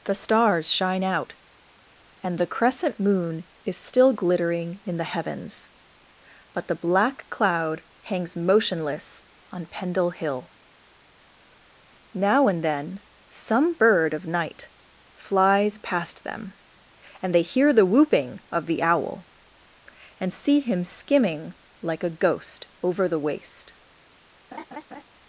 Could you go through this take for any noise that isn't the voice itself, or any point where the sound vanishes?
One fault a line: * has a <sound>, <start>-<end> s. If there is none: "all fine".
* has a laugh, 24.5-25.0 s